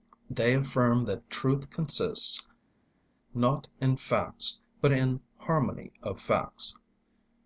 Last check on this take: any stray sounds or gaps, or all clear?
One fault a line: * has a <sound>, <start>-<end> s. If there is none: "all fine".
all fine